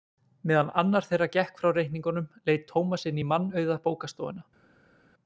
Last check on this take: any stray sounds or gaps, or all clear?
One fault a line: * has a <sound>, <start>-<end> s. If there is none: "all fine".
all fine